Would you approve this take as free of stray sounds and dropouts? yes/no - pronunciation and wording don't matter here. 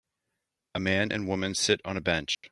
no